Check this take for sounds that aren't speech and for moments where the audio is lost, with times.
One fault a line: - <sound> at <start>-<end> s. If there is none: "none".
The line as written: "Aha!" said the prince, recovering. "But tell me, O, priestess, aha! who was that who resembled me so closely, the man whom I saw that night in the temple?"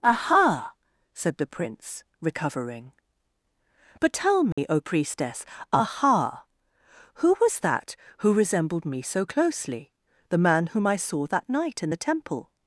- dropout at 4.5-4.6 s